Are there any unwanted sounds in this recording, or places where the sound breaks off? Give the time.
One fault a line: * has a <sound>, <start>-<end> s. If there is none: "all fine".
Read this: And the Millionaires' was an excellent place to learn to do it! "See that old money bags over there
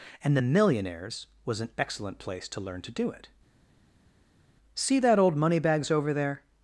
all fine